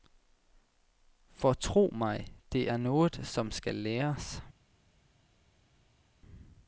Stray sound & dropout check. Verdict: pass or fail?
pass